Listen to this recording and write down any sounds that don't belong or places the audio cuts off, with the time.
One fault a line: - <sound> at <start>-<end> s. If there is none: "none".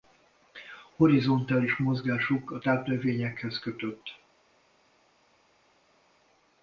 none